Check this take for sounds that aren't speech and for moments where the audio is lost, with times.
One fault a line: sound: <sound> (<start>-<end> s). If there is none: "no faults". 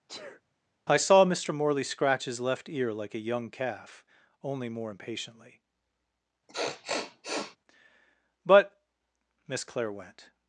sound: sneeze (0.1-0.4 s)
sound: sniff (6.5-7.6 s)